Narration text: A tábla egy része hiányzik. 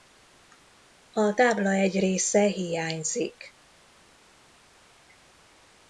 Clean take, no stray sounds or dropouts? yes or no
yes